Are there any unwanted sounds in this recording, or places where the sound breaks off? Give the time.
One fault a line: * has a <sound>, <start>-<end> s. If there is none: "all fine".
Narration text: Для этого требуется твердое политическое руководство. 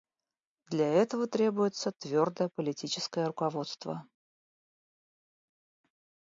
all fine